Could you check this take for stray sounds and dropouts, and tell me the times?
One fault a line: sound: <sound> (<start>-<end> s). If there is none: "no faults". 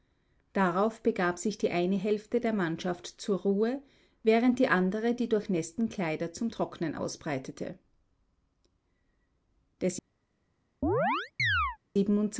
sound: chirp (10.8-11.8 s)